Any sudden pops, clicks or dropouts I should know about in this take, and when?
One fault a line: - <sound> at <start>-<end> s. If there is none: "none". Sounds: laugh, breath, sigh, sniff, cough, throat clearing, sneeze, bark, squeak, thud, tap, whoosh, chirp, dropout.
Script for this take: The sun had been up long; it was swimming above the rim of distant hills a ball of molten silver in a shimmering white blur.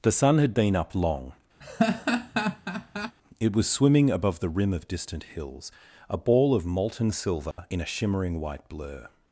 - laugh at 1.6-3.2 s
- dropout at 7.5-7.6 s